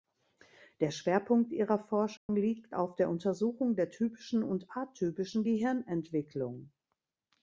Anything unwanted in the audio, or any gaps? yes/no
yes